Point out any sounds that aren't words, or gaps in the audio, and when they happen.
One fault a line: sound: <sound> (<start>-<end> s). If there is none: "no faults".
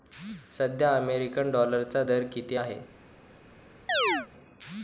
sound: chirp (3.9-4.3 s)